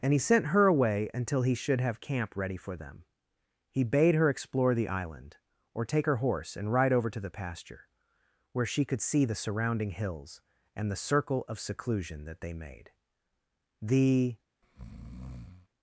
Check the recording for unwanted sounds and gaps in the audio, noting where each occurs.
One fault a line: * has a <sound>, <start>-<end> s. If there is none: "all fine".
* has a breath, 14.6-15.7 s